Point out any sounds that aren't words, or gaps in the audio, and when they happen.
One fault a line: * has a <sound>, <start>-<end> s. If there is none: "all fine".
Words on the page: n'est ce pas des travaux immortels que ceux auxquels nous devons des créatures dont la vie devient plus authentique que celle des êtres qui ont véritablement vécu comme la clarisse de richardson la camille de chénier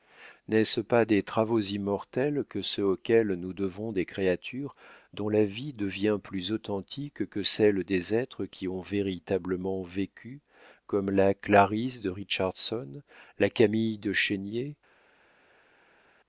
all fine